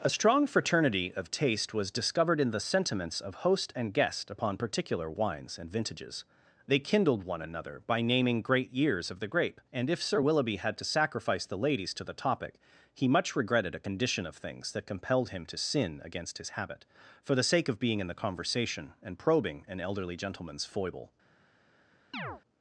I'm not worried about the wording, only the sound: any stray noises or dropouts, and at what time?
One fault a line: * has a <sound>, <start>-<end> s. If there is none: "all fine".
* has a chirp, 22.1-22.4 s